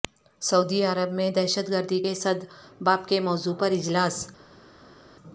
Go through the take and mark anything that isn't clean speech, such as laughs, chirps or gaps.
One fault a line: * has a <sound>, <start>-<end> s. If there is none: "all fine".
all fine